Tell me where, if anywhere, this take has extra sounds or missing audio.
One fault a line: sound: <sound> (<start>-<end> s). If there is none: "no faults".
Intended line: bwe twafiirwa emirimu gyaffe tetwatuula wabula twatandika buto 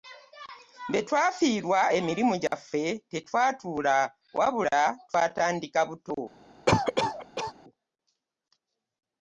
sound: dropout (2.5-2.5 s)
sound: cough (6.7-7.5 s)